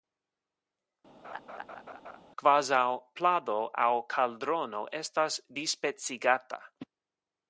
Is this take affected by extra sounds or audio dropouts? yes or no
yes